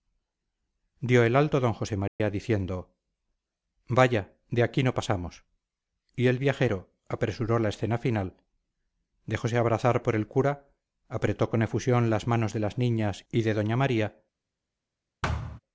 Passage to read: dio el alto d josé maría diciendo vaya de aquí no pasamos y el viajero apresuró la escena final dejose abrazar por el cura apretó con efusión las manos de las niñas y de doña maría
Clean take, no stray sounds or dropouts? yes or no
no